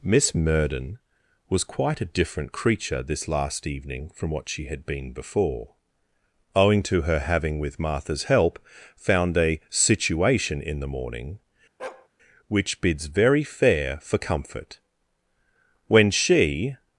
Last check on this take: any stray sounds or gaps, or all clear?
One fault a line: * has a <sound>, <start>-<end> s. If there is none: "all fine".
* has a bark, 11.8-12.1 s